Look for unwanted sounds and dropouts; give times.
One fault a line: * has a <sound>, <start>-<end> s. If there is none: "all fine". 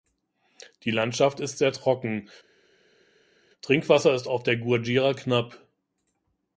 all fine